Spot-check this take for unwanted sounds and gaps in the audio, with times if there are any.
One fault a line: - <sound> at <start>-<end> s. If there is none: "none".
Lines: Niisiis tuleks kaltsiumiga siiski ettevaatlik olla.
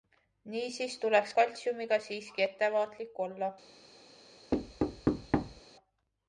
- thud at 4.5-5.6 s